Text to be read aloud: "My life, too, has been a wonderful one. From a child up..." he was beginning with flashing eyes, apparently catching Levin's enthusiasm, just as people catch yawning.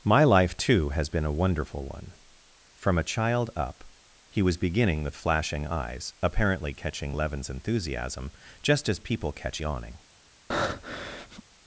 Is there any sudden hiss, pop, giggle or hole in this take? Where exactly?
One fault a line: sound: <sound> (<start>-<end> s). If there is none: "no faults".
sound: breath (10.5-11.4 s)